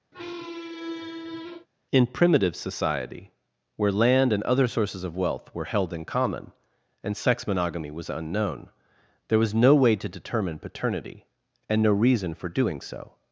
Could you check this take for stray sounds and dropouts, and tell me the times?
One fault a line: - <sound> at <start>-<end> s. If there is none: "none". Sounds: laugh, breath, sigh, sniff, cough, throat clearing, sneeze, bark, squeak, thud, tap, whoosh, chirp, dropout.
- squeak at 0.1-1.7 s